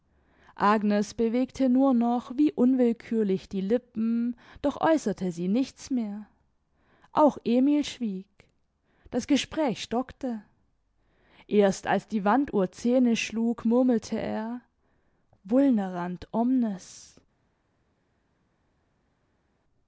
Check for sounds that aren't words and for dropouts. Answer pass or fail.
pass